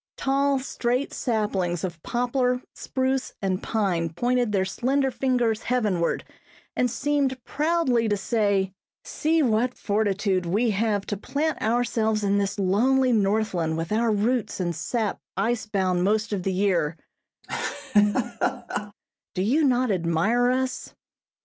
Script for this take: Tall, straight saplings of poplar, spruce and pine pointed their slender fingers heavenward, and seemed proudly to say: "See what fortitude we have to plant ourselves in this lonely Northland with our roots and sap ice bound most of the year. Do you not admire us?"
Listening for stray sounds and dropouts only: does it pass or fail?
fail